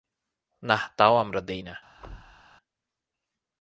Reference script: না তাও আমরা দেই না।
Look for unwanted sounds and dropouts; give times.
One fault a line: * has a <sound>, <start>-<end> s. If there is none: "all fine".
* has a thud, 2.0-2.4 s